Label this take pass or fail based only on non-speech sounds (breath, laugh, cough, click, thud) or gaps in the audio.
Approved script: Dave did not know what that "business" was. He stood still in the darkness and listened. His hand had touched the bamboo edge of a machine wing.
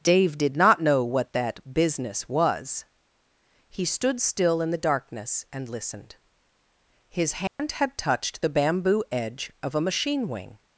fail